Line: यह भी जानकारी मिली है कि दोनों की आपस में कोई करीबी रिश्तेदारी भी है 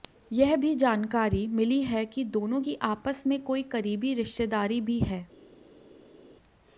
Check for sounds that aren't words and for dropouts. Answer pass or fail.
pass